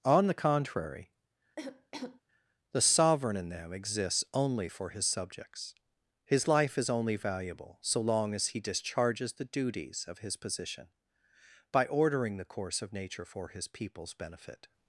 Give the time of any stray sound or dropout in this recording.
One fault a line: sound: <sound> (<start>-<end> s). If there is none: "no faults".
sound: cough (1.6-2.2 s)